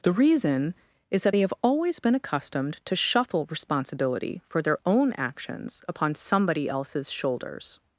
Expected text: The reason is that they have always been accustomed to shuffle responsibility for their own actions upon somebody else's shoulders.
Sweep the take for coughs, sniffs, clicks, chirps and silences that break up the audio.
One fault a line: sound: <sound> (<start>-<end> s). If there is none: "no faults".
no faults